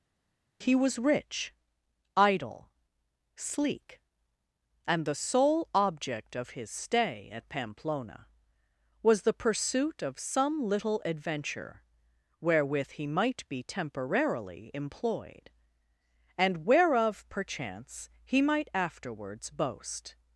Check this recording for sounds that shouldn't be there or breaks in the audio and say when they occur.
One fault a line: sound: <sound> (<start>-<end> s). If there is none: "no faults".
no faults